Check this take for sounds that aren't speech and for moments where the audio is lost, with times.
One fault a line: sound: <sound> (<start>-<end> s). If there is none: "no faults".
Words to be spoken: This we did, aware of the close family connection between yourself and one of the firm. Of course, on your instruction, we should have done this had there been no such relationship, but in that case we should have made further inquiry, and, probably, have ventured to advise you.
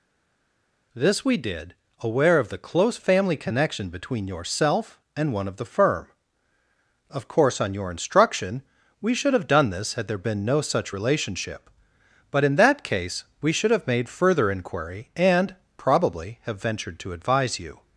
no faults